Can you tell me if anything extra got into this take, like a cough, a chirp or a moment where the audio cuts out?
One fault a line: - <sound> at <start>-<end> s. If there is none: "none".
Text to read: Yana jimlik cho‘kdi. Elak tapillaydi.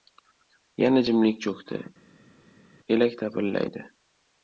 none